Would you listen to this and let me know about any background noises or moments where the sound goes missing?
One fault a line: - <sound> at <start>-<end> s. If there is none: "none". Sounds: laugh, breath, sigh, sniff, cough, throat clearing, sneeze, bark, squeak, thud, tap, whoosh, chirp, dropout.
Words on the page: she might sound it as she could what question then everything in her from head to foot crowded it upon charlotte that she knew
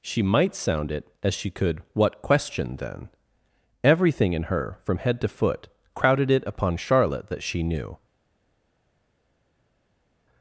none